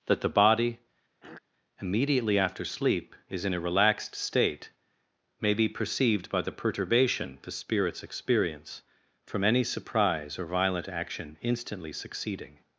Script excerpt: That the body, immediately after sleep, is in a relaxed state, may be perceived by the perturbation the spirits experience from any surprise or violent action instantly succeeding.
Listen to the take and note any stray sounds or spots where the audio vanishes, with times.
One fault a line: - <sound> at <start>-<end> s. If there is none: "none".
- throat clearing at 1.2-1.4 s